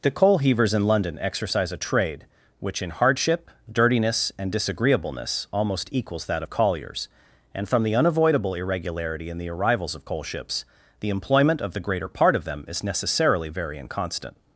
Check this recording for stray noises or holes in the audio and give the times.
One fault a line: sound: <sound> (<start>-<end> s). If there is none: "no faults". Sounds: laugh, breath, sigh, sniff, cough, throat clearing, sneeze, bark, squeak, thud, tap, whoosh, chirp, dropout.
no faults